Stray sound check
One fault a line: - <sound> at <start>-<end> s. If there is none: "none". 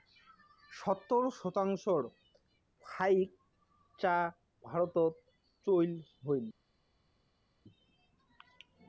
none